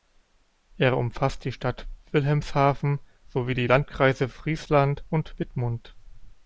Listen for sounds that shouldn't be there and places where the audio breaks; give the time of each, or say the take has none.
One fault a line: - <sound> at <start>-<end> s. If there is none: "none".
none